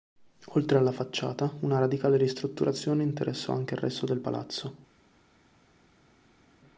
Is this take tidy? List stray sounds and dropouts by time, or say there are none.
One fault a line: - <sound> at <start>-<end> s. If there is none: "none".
none